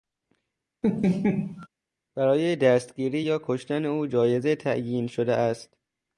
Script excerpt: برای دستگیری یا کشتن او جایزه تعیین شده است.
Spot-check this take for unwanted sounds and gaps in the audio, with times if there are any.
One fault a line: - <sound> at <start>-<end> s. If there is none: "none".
- laugh at 0.8-1.7 s